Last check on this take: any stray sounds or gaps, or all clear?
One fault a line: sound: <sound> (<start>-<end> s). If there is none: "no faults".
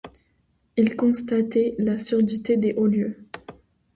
no faults